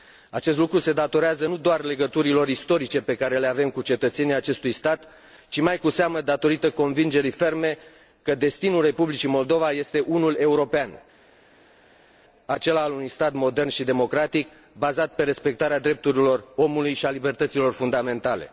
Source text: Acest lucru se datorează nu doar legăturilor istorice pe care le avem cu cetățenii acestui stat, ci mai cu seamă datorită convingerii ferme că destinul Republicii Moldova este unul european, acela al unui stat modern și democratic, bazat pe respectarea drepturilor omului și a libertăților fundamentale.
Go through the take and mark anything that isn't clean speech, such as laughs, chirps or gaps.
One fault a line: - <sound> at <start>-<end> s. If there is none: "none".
none